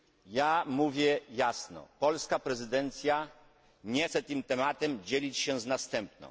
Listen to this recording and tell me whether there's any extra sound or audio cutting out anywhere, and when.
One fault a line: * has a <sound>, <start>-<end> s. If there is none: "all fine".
all fine